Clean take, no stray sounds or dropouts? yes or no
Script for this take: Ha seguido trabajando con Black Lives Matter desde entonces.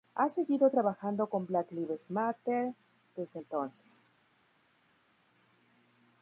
yes